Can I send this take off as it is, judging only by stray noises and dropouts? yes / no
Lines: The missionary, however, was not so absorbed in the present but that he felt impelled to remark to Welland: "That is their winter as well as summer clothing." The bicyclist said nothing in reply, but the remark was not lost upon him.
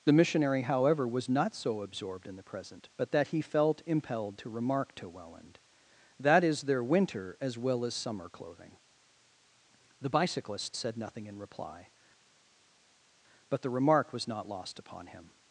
yes